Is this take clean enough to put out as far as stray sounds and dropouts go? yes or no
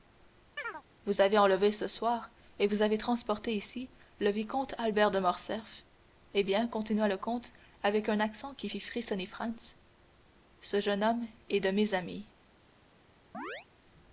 no